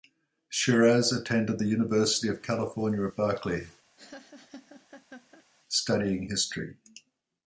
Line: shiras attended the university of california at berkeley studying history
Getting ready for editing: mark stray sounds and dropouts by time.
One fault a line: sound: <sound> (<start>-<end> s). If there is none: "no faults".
sound: laugh (4.0-5.5 s)